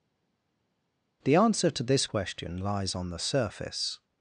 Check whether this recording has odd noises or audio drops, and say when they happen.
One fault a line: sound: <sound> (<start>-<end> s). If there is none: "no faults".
no faults